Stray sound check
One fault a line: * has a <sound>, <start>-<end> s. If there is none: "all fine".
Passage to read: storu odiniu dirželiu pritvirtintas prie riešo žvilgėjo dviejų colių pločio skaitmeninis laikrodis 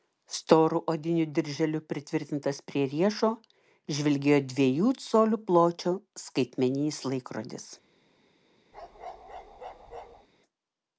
* has a bark, 8.7-10.3 s